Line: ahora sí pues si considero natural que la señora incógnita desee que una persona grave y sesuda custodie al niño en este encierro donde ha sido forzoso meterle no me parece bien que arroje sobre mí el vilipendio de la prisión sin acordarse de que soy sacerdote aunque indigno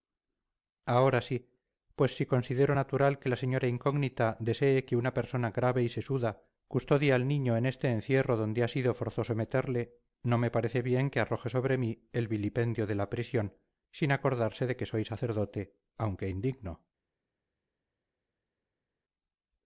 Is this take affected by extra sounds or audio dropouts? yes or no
no